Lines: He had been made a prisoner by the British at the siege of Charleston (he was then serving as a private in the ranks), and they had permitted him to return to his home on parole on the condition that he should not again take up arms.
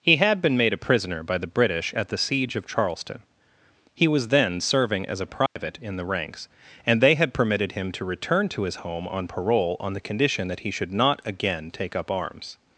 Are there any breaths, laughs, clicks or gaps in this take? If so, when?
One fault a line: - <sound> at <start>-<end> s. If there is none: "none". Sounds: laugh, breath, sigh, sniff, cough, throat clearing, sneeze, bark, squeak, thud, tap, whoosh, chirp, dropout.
- dropout at 5.5-5.6 s